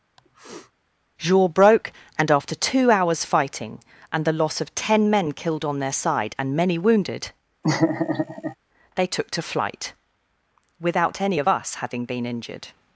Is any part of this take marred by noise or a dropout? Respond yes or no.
yes